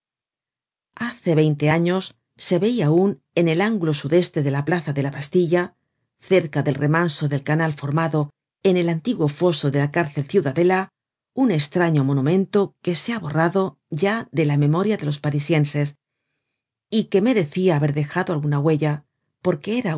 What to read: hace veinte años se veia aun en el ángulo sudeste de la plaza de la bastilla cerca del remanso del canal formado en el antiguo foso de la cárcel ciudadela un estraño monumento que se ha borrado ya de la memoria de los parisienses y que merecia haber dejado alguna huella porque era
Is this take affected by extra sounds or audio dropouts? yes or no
no